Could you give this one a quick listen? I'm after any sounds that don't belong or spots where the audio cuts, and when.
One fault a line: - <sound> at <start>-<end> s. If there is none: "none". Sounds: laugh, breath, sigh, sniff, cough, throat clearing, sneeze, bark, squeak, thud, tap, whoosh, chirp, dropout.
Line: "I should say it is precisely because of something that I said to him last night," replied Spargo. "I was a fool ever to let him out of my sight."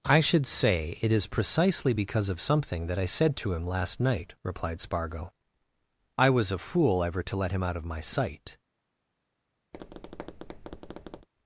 - tap at 9.7-11.3 s